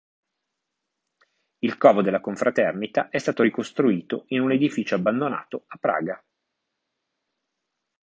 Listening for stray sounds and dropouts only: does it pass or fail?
pass